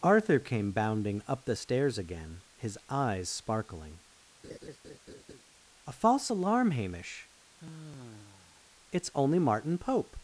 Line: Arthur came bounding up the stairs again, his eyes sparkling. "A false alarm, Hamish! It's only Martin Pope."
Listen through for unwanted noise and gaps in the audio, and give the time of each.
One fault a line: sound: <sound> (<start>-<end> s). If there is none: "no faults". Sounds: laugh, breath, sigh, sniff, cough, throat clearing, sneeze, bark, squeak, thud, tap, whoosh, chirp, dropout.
sound: laugh (4.4-5.4 s)
sound: sigh (7.6-8.7 s)